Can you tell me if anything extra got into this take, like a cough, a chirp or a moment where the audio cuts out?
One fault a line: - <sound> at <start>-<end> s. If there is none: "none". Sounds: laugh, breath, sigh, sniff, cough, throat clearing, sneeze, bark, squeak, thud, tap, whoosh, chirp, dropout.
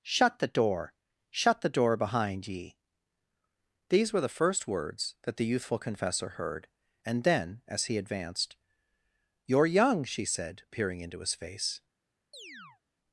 - chirp at 12.3-12.8 s